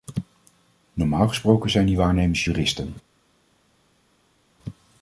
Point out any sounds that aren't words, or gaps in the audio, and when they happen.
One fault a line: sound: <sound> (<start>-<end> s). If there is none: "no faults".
no faults